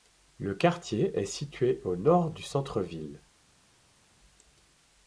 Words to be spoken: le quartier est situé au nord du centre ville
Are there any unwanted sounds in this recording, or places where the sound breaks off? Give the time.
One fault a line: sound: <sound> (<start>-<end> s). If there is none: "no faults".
no faults